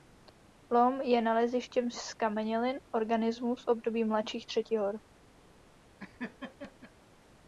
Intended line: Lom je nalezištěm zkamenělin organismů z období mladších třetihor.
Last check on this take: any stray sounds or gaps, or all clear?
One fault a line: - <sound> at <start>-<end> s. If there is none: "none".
- laugh at 6.0-6.9 s